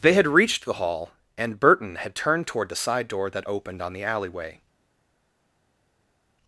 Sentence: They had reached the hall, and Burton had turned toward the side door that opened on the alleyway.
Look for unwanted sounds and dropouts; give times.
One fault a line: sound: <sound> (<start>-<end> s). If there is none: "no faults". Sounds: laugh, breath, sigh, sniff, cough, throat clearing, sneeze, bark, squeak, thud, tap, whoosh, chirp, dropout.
no faults